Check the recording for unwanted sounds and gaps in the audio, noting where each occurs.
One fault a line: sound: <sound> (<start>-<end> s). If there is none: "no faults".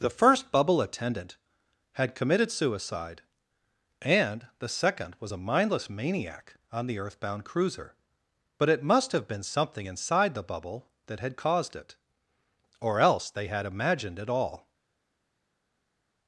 no faults